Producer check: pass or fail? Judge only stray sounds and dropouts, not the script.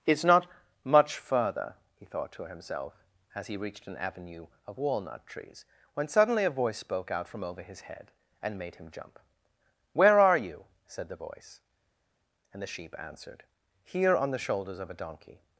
pass